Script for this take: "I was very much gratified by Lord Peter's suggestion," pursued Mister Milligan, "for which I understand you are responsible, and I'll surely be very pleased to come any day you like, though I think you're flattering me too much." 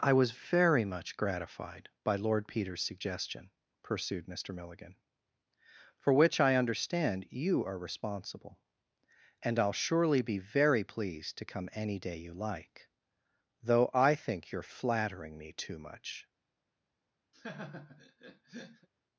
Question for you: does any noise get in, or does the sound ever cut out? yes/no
yes